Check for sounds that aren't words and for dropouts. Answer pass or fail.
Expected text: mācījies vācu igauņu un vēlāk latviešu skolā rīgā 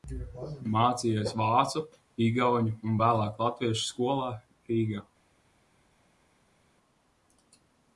pass